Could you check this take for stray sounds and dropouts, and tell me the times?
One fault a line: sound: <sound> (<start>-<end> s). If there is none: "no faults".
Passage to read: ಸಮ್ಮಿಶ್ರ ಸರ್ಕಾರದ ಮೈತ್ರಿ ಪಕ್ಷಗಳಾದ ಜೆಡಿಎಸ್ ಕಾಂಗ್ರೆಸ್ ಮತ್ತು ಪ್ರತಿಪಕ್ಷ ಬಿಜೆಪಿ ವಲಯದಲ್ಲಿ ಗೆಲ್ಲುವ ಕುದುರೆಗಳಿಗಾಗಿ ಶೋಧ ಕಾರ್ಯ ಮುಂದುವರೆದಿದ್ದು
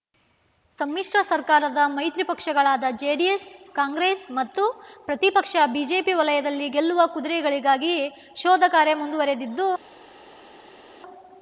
no faults